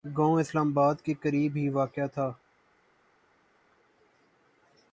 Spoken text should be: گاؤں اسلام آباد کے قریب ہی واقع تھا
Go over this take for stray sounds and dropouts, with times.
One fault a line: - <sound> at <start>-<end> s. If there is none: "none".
none